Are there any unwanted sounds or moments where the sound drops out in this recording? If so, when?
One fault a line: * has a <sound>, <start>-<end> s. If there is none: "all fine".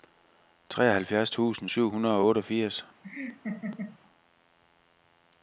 * has a laugh, 3.0-4.0 s